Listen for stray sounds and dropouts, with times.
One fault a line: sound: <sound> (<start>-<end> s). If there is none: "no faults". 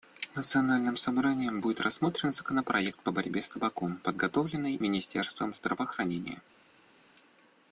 no faults